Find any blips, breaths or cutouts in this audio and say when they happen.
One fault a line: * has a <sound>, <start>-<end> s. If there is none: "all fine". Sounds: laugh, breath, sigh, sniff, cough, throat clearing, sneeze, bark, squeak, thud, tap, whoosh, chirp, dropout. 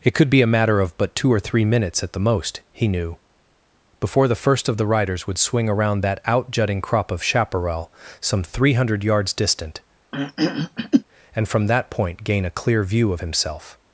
* has a throat clearing, 10.1-11.0 s